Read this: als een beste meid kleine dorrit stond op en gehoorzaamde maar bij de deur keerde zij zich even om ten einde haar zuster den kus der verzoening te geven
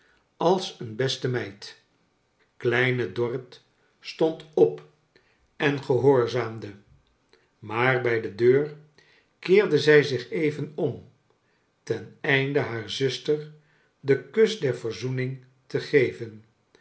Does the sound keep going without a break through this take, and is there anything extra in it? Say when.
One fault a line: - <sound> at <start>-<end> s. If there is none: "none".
none